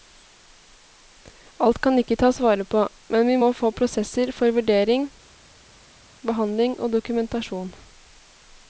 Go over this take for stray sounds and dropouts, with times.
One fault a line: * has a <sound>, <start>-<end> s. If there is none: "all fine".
all fine